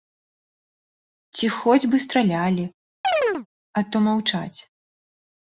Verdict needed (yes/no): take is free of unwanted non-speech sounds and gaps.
no